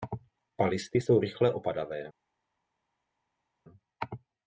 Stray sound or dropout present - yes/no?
no